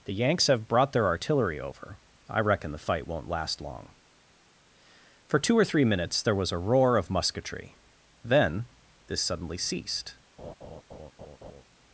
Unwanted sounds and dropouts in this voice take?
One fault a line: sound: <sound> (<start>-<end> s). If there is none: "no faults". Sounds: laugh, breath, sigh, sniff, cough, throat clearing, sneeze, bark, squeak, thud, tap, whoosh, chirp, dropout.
sound: laugh (10.4-11.6 s)